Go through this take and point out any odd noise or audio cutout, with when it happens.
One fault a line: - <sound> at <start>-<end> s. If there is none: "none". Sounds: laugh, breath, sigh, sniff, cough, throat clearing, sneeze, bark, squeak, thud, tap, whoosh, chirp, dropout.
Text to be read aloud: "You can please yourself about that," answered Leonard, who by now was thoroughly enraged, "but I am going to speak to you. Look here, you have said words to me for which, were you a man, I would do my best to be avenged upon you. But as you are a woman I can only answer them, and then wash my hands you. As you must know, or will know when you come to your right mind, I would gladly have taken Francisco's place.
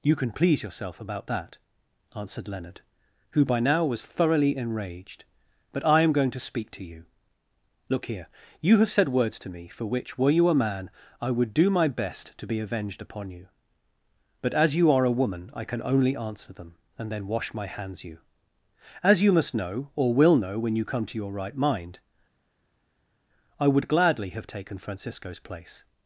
none